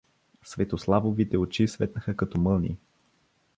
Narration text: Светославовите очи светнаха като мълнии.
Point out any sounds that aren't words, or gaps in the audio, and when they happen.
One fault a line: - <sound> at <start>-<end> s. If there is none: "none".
none